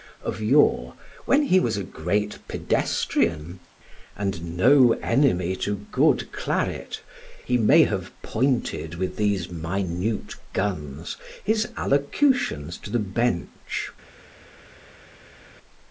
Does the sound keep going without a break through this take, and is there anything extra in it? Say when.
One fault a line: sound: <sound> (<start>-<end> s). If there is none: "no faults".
no faults